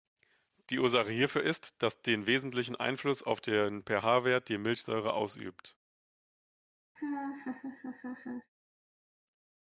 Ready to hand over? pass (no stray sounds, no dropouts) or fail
fail